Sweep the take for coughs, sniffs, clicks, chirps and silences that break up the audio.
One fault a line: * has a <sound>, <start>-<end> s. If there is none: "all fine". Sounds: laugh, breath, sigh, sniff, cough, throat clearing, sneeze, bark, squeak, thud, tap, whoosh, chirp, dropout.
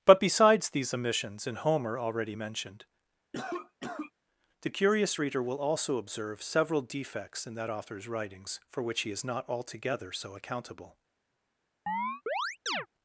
* has a cough, 3.3-4.1 s
* has a chirp, 11.9-12.9 s